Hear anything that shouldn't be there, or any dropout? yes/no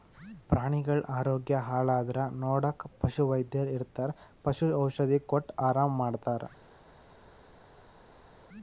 no